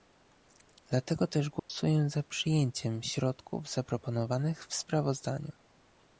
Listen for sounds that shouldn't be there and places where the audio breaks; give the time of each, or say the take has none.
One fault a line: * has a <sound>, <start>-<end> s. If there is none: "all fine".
* has a dropout, 1.6-1.7 s